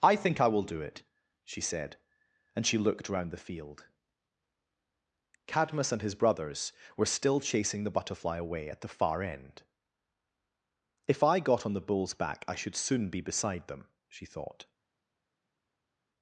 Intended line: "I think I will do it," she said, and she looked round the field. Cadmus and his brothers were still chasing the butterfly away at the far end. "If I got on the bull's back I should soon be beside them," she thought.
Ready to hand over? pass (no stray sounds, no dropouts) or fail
pass